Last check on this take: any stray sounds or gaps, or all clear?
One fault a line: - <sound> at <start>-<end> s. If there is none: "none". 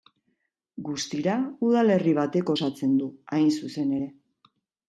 none